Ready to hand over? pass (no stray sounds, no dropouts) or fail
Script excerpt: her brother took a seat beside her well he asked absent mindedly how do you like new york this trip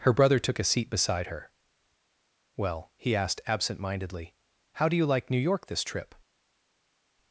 pass